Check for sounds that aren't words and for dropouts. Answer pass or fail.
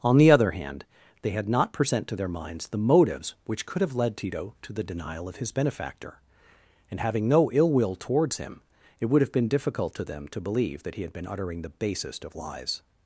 pass